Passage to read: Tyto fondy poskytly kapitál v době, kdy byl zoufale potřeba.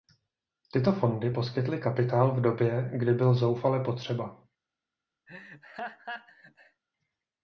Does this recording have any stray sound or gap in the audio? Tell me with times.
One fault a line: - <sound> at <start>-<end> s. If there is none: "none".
- laugh at 5.3-6.8 s